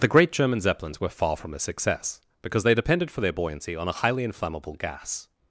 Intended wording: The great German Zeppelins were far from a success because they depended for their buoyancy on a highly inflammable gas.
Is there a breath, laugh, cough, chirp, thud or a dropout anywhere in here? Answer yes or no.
no